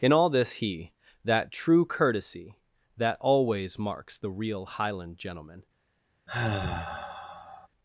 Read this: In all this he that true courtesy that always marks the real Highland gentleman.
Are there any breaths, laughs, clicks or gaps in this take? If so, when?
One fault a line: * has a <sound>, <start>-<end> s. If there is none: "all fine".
* has a sigh, 6.3-7.7 s